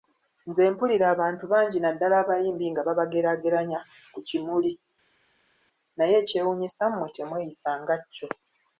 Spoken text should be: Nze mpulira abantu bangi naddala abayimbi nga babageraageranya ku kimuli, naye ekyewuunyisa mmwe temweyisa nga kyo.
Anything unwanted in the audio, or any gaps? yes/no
no